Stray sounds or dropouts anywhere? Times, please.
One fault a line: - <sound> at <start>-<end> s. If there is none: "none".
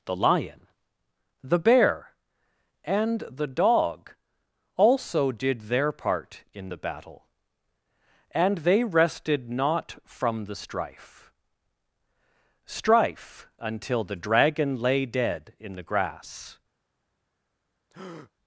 - breath at 17.9-18.3 s